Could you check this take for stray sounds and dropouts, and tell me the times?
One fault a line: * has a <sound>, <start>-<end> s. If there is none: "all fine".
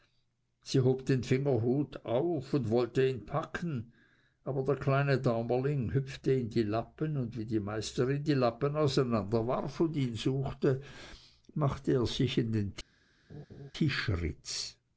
* has a laugh, 13.3-13.7 s